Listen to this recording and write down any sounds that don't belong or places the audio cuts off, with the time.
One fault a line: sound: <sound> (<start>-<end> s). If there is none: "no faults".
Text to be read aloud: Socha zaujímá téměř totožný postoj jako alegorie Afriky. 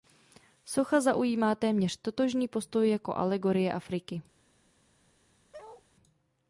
sound: bark (5.5-5.8 s)